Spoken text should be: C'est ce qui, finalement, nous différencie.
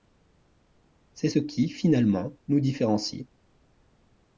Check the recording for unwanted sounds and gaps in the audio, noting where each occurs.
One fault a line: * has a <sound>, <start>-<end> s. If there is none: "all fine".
all fine